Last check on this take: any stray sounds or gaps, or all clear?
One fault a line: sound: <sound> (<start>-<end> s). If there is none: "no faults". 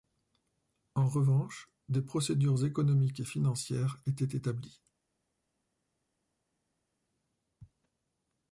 no faults